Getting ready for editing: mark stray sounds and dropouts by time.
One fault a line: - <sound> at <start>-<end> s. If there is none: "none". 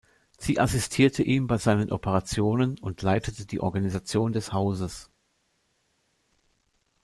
none